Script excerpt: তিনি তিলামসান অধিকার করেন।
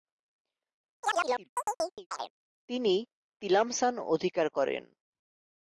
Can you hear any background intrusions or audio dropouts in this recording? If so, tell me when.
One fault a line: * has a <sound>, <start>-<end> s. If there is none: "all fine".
* has a chirp, 1.0-2.3 s